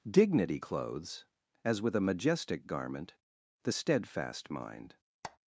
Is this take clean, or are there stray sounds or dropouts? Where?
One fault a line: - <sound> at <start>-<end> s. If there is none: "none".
- squeak at 5.2-5.4 s